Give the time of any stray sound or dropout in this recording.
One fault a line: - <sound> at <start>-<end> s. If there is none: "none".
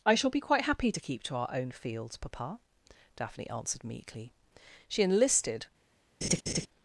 - laugh at 6.2-6.7 s